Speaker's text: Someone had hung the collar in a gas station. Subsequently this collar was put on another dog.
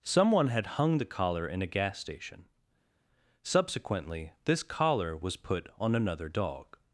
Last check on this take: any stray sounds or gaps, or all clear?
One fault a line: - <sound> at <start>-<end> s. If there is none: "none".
none